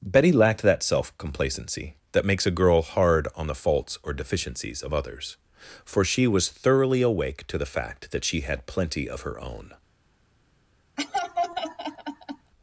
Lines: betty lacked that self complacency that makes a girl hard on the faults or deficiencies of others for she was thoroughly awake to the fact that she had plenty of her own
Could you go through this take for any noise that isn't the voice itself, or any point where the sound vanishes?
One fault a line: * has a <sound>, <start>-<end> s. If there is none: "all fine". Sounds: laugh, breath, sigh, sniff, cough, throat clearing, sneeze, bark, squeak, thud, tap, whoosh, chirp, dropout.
* has a laugh, 11.0-12.5 s